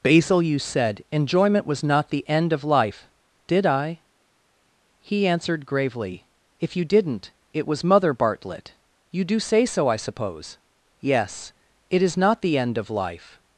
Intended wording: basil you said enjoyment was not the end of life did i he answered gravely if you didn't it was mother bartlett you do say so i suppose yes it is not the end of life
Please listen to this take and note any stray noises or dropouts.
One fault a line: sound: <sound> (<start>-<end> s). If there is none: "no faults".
no faults